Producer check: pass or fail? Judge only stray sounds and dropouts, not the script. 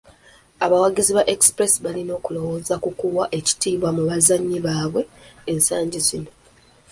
pass